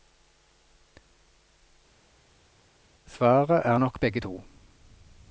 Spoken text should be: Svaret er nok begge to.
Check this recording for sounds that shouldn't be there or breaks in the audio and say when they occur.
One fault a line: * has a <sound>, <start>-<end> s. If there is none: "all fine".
all fine